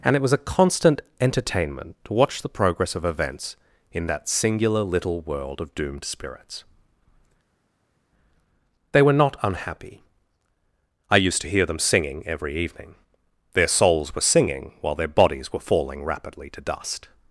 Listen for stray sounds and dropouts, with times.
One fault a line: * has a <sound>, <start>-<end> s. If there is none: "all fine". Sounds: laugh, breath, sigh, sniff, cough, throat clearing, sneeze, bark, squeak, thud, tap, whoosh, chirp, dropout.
all fine